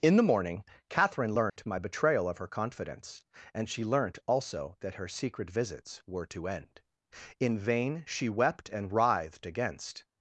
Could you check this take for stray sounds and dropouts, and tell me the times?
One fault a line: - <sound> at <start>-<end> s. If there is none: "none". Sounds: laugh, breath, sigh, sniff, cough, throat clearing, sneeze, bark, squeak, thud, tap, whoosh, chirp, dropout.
- dropout at 1.5-1.6 s